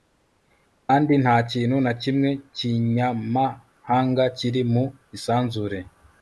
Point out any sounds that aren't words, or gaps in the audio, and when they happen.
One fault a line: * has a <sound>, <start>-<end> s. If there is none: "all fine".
all fine